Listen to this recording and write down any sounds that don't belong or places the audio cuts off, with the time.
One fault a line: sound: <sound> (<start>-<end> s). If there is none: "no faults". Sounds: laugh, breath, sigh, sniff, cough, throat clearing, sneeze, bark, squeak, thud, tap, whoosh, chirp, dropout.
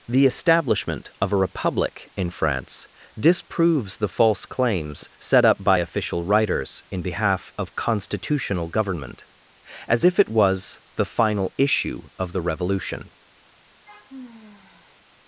sound: sigh (13.9-15.1 s)